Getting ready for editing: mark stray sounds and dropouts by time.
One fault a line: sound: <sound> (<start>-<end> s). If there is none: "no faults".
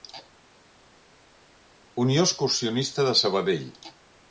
no faults